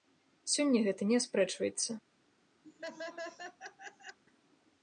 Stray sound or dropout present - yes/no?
yes